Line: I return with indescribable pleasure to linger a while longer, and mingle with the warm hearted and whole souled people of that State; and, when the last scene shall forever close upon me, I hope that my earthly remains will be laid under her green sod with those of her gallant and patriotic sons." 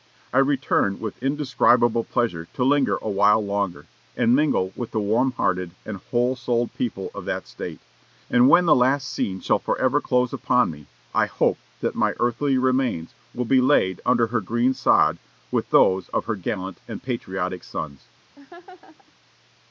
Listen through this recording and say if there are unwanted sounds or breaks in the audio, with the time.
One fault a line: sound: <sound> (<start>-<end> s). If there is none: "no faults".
sound: laugh (18.4-19.1 s)